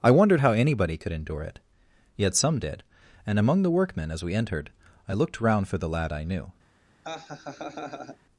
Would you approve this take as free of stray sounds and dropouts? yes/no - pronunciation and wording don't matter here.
no